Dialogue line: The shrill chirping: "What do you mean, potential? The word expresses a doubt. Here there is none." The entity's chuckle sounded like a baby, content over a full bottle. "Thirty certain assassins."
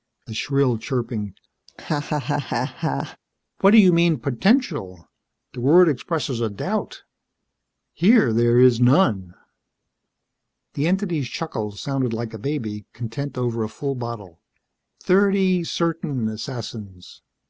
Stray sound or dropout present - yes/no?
yes